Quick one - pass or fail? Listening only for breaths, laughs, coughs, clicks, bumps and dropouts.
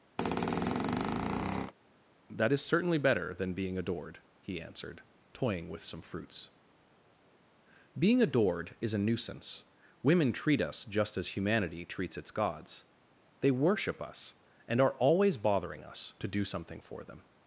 fail